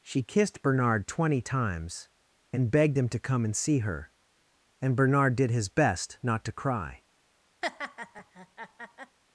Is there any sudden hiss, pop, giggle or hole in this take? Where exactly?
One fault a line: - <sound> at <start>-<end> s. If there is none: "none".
- laugh at 7.6-9.2 s